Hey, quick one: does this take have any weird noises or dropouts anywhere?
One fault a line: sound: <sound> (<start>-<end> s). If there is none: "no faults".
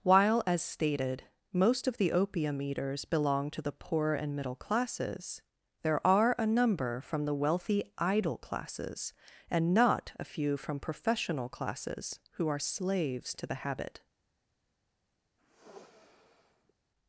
sound: sniff (15.4-16.7 s)